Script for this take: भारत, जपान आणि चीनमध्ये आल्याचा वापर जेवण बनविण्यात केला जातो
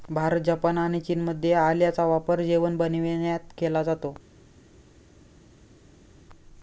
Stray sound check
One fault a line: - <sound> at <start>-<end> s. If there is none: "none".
none